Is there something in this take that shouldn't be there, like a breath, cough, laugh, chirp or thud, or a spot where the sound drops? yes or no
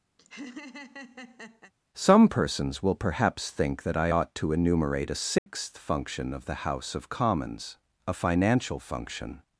yes